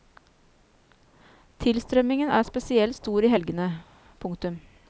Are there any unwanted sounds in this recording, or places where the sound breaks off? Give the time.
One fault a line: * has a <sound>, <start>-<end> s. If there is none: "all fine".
all fine